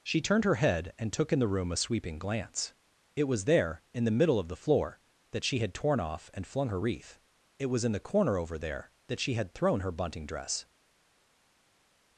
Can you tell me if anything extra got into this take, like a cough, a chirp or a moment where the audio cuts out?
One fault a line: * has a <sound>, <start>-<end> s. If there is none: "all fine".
all fine